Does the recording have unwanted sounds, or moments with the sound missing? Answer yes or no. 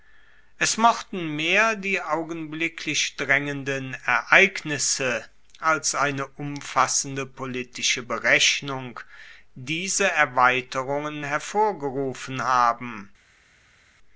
no